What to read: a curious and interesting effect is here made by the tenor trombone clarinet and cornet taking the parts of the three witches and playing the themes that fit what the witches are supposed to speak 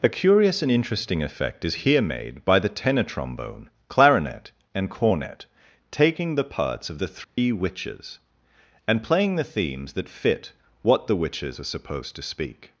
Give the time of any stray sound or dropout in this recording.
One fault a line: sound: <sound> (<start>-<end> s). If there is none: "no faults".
sound: dropout (7.2-7.4 s)